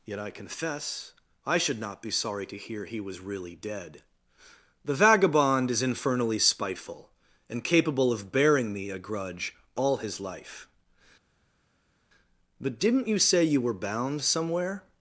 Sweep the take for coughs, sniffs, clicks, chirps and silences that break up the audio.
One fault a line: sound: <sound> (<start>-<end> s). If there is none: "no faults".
no faults